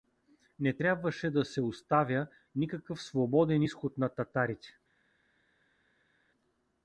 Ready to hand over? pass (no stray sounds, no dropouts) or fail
pass